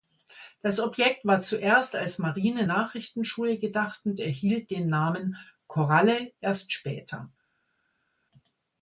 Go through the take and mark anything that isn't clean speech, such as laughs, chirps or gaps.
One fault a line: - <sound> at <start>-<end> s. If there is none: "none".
none